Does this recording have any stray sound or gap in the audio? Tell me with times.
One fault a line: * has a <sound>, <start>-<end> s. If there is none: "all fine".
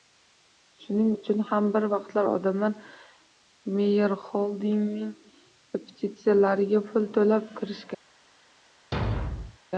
* has a thud, 8.9-9.6 s